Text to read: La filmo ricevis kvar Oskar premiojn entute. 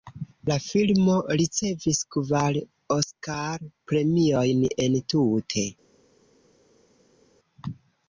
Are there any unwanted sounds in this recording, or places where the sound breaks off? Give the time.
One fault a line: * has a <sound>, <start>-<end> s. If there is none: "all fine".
all fine